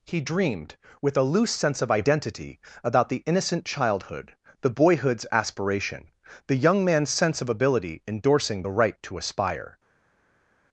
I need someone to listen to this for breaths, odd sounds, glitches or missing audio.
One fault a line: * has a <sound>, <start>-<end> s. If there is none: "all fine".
all fine